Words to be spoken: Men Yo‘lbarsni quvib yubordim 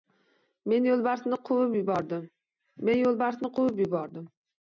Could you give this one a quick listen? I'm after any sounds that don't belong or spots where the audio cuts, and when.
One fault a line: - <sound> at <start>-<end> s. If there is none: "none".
none